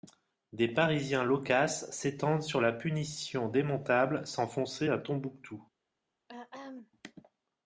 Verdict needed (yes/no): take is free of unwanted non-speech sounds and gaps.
no